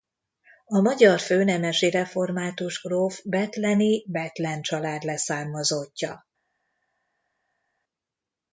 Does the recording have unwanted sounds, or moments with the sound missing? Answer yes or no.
no